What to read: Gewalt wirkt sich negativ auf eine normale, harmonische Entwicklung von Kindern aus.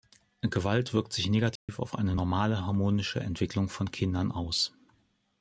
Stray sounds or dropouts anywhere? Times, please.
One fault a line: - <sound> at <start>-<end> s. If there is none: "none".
- dropout at 1.6-1.7 s